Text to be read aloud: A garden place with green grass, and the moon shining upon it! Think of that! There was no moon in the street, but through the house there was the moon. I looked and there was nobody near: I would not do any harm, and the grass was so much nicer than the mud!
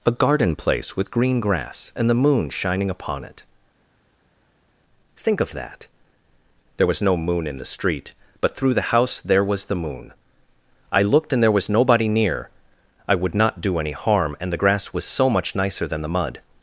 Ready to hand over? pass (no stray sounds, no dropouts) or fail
pass